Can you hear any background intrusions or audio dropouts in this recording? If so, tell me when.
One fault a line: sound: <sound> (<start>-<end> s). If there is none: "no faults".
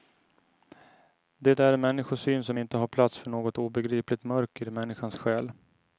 no faults